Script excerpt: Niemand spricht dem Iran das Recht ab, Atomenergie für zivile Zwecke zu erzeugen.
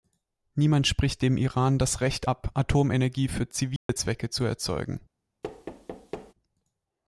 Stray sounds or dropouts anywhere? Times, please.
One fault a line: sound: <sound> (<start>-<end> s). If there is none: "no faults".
sound: dropout (3.8-3.9 s)
sound: thud (5.4-6.3 s)